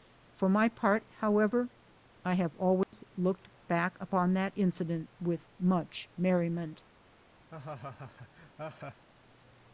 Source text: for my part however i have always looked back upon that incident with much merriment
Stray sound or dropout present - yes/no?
yes